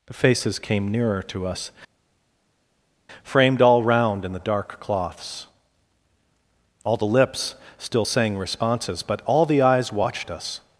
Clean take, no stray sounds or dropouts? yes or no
yes